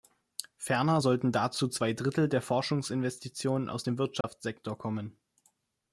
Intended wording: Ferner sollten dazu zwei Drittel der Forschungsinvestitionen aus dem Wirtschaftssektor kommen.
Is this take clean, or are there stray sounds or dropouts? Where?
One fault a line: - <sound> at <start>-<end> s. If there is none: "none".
- dropout at 4.2-4.2 s